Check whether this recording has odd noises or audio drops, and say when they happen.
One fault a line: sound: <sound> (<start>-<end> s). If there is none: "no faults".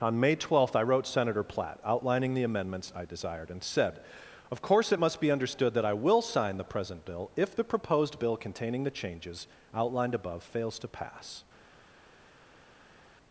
no faults